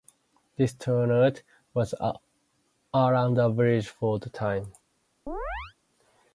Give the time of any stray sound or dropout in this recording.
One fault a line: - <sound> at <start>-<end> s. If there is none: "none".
- chirp at 5.3-5.7 s